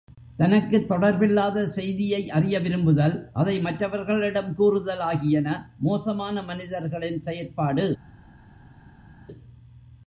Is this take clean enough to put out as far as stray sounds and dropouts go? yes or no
yes